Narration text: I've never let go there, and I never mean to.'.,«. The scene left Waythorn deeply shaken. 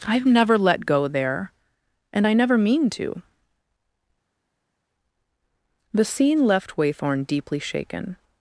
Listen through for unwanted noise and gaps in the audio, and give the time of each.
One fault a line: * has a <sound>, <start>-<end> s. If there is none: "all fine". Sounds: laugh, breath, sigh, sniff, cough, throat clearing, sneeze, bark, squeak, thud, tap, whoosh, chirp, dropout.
all fine